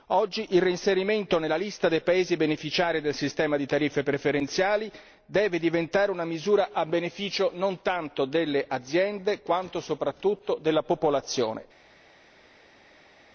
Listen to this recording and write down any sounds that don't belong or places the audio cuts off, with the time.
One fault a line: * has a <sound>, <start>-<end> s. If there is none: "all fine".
all fine